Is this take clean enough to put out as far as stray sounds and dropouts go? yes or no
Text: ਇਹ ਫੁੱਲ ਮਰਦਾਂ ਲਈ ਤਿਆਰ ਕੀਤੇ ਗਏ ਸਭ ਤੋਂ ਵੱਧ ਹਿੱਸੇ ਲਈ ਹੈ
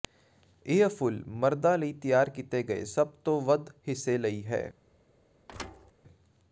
no